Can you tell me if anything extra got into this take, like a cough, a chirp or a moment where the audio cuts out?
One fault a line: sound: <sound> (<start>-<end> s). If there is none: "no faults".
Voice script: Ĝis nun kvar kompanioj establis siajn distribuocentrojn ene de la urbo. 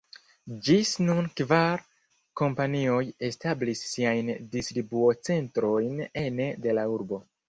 no faults